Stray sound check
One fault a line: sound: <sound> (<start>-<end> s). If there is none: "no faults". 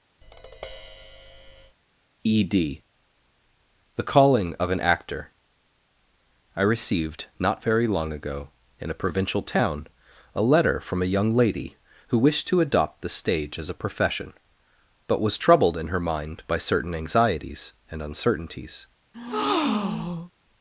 sound: tap (0.2-1.8 s)
sound: breath (19.1-20.3 s)